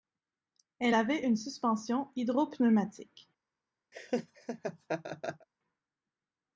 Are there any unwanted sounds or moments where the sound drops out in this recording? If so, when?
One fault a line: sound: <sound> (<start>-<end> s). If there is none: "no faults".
sound: laugh (3.9-5.5 s)